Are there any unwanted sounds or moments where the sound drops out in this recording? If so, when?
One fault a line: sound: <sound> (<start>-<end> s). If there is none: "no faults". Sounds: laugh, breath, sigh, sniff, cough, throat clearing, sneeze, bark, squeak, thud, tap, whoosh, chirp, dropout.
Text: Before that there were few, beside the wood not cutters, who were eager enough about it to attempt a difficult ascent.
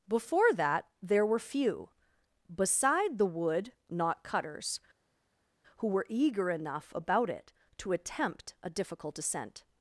no faults